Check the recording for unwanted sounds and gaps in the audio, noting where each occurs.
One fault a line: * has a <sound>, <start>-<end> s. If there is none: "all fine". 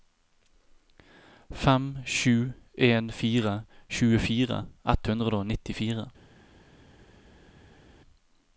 all fine